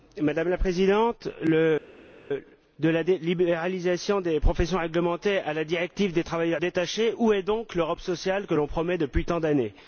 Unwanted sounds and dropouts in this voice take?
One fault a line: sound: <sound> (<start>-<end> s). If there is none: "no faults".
no faults